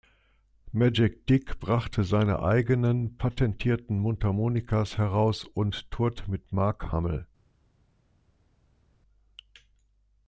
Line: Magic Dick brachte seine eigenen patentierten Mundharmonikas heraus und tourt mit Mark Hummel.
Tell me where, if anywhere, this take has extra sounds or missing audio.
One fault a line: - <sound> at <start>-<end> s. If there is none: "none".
none